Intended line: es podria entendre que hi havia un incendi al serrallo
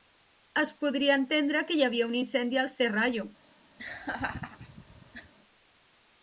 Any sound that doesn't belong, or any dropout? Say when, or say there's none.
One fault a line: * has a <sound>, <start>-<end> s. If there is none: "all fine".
* has a laugh, 3.8-5.3 s